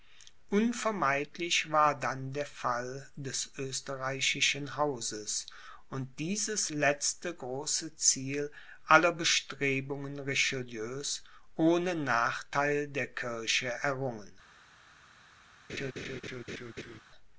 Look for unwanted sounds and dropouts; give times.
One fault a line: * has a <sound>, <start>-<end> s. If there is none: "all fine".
* has a laugh, 15.7-17.0 s